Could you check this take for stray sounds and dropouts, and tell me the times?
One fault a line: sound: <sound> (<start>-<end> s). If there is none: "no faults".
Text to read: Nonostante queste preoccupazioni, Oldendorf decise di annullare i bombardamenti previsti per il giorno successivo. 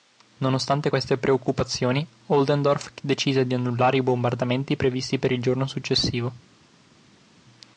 no faults